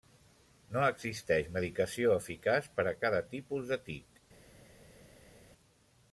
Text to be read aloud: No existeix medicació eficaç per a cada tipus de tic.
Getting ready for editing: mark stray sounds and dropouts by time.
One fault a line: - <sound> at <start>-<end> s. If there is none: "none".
none